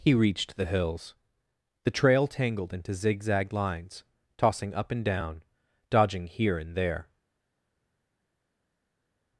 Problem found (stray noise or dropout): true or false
false